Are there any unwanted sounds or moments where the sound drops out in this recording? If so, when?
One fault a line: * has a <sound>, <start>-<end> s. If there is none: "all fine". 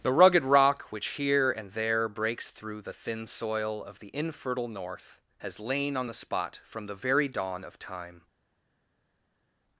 all fine